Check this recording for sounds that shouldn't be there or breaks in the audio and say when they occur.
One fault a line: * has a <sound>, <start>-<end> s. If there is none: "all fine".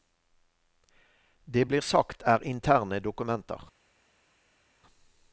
all fine